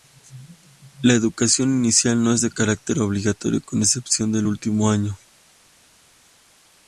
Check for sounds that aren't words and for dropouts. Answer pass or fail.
pass